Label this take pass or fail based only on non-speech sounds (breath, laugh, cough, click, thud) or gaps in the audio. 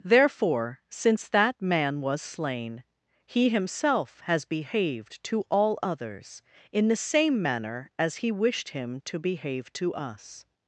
pass